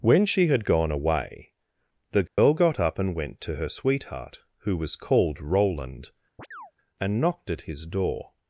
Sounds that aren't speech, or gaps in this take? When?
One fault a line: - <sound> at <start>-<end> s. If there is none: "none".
- dropout at 2.3-2.4 s
- chirp at 6.4-6.7 s